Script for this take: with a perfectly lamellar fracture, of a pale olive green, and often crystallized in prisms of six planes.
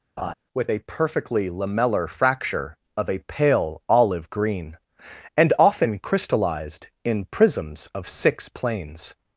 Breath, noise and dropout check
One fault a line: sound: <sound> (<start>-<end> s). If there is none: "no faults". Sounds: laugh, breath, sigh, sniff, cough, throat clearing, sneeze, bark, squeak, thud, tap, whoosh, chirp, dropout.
sound: laugh (0.2-0.3 s)